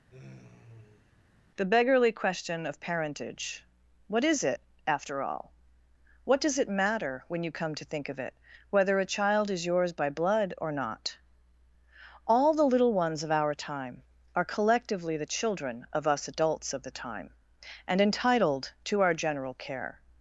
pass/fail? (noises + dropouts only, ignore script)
fail